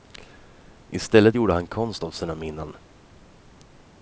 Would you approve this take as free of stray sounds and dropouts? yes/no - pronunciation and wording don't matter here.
yes